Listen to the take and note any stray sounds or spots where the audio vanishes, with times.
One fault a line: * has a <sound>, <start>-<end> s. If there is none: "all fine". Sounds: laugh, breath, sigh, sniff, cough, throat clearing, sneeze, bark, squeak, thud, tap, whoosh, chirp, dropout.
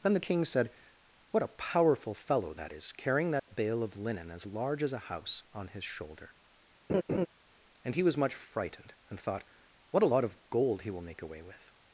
* has a dropout, 3.4-3.5 s
* has a laugh, 6.9-7.3 s